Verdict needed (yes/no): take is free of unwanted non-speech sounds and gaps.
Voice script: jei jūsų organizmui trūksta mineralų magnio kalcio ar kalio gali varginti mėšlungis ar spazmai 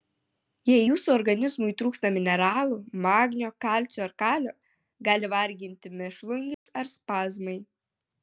no